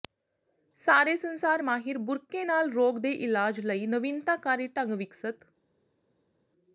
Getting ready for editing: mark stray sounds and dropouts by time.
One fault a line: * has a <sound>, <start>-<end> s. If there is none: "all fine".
all fine